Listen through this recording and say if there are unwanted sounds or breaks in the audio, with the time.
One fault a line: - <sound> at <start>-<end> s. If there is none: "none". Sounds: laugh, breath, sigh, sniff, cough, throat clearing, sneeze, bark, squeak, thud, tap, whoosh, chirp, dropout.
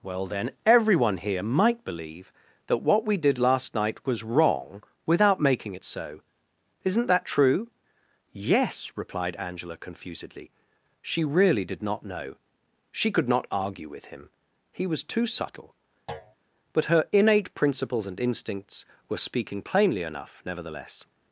- thud at 16.1-16.4 s